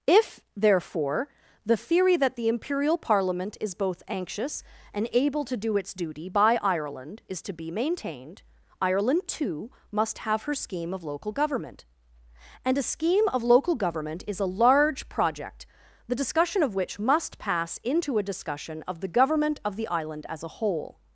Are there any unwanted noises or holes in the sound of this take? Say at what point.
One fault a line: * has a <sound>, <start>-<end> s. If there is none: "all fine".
all fine